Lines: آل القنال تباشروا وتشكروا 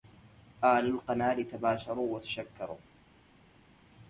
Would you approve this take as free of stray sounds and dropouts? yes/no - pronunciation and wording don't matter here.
yes